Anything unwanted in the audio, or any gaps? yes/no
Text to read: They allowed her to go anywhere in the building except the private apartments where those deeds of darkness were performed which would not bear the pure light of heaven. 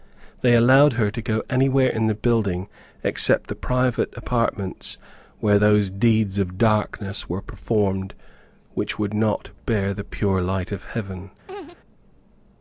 yes